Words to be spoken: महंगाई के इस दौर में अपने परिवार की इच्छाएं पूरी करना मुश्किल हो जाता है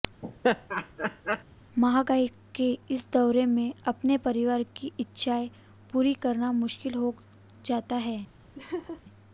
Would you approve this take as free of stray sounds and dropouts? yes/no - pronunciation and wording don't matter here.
no